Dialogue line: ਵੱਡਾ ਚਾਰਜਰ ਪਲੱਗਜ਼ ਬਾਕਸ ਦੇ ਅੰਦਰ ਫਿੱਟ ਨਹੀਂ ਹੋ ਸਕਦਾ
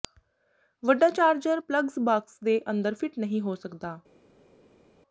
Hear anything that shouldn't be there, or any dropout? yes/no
no